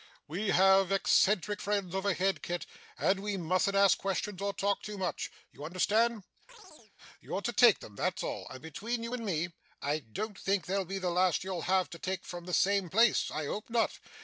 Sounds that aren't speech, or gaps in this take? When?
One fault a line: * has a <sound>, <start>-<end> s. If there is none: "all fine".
* has a chirp, 6.5-6.9 s